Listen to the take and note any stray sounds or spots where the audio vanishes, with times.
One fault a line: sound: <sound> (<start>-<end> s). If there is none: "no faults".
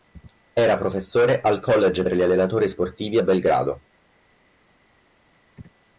no faults